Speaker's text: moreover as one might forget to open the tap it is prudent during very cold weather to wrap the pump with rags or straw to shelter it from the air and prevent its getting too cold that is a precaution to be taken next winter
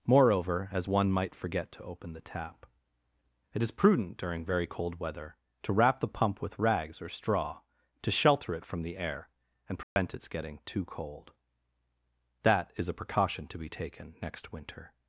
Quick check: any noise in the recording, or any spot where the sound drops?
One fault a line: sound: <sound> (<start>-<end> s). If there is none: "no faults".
sound: dropout (9.8-10.0 s)